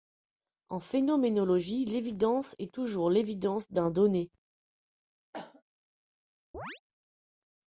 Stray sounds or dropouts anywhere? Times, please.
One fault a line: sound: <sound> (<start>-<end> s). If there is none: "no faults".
sound: cough (5.3-5.6 s)
sound: chirp (6.5-6.8 s)